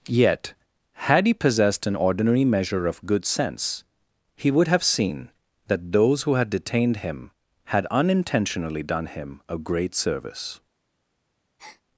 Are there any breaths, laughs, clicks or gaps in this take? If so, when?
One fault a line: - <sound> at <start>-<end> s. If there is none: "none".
- breath at 11.6-11.8 s